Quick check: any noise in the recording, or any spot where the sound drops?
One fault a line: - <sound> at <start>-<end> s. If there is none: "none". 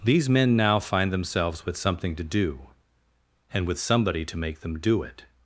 none